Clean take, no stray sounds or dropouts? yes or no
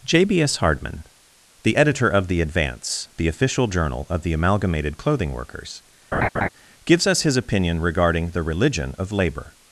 no